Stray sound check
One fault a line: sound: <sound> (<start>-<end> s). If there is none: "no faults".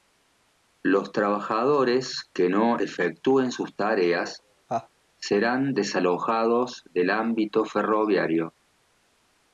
sound: laugh (4.7-4.9 s)